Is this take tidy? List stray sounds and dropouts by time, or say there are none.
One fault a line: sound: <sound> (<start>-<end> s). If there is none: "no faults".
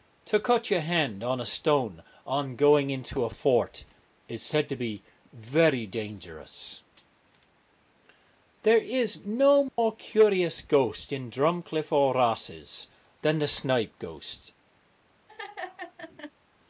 sound: dropout (9.7-9.8 s)
sound: laugh (15.3-16.3 s)